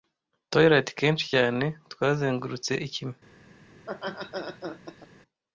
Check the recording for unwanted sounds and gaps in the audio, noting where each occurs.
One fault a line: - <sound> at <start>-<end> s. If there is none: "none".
- laugh at 3.7-5.1 s